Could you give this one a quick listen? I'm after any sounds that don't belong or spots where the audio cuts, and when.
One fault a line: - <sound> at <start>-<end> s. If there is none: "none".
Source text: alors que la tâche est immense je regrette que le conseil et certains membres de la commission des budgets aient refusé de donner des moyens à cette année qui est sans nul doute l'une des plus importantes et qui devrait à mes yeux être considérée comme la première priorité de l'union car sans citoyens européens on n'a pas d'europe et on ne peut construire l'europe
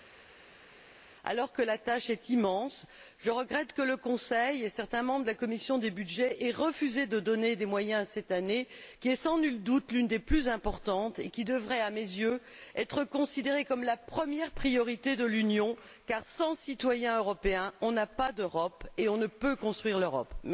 none